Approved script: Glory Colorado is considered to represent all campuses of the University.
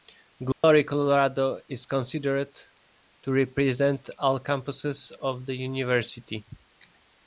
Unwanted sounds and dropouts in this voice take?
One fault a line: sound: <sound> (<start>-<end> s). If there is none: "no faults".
sound: dropout (0.5-0.6 s)